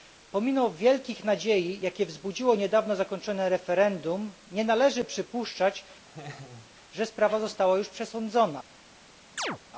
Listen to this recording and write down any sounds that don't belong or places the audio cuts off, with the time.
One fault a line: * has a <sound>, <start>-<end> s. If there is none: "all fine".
* has a laugh, 6.1-6.7 s
* has a chirp, 9.4-9.6 s